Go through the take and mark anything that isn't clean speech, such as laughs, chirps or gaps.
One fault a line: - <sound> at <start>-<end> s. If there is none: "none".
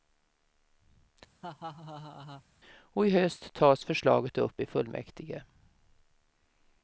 - laugh at 1.4-2.4 s